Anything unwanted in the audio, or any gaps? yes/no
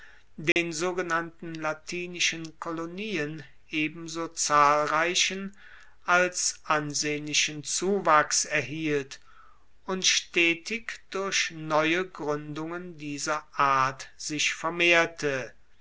yes